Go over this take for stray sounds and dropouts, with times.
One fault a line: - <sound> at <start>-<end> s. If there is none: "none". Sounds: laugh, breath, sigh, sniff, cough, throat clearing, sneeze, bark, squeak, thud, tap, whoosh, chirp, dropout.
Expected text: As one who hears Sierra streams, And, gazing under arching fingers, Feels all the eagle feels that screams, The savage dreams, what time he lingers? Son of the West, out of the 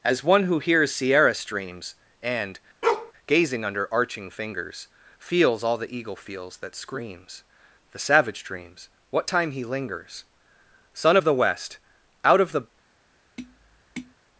- bark at 2.8-3.1 s
- tap at 13.4-14.1 s